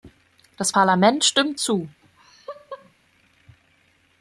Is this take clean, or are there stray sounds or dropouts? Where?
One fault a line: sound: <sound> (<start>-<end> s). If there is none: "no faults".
sound: laugh (2.0-2.9 s)